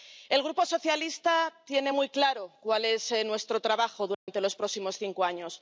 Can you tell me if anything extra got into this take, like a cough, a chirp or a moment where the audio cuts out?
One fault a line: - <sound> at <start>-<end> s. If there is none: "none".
- dropout at 4.1-4.3 s